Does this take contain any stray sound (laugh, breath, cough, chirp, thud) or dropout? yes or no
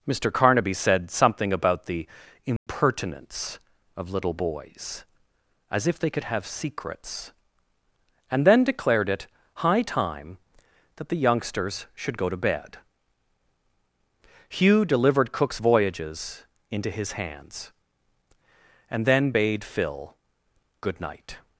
yes